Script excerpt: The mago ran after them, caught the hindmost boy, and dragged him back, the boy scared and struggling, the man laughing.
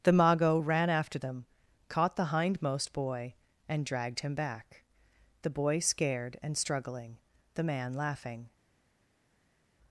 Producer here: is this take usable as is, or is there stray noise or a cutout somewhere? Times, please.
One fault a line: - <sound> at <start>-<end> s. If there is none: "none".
none